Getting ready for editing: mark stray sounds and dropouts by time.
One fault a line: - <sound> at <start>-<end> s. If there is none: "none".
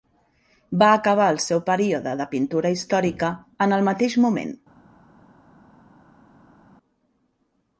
none